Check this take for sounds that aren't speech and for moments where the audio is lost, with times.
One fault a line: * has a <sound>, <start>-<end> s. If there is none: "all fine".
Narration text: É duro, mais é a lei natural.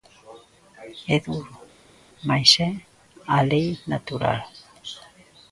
all fine